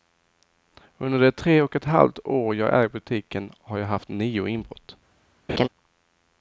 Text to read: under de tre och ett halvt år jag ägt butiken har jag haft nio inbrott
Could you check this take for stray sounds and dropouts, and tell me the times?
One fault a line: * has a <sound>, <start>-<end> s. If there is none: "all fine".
* has a laugh, 5.5-5.7 s